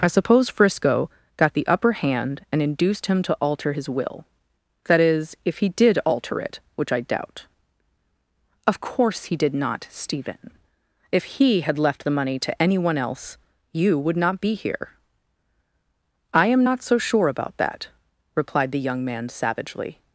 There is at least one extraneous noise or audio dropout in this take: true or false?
false